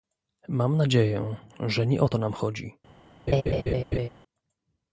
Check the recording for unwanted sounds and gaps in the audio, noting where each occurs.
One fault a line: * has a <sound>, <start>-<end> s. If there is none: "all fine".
* has a laugh, 3.3-4.1 s